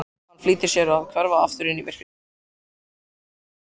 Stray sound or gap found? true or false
false